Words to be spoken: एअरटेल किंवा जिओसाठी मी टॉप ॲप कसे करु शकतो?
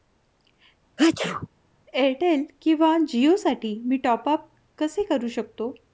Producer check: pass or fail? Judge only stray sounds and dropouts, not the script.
fail